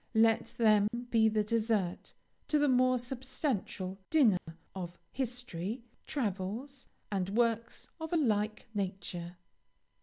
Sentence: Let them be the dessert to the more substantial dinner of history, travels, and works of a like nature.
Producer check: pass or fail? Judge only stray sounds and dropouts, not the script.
fail